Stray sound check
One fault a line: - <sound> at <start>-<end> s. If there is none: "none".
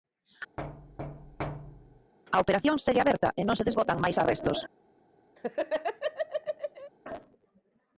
- thud at 0.6-2.1 s
- laugh at 5.4-6.9 s